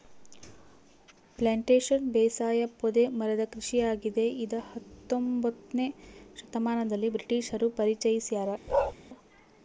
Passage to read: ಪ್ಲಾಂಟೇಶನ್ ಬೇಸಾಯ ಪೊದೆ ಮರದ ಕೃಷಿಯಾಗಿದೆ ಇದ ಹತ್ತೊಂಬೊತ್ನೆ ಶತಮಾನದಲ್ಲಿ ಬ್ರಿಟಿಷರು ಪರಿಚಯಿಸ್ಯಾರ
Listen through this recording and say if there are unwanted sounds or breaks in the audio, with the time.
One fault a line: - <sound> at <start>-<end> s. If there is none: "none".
- bark at 8.7-8.9 s